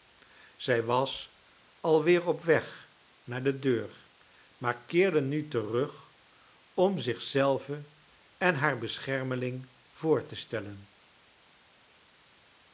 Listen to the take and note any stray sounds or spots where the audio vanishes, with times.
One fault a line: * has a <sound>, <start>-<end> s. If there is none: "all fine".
all fine